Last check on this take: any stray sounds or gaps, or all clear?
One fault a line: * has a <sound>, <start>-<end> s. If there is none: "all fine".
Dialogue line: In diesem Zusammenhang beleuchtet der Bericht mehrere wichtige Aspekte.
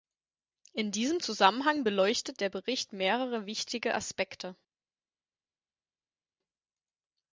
all fine